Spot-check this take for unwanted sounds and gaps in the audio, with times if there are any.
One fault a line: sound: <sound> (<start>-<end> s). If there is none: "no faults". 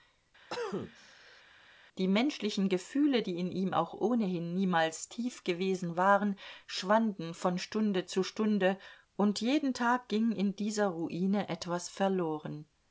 sound: cough (0.5-1.4 s)